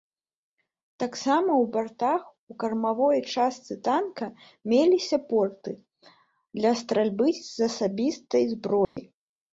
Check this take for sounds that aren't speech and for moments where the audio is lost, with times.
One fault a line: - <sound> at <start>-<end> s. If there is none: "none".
- dropout at 8.8-9.0 s